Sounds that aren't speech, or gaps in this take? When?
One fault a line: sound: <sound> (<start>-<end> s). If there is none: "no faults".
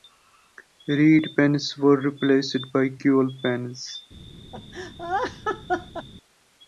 sound: laugh (4.5-6.1 s)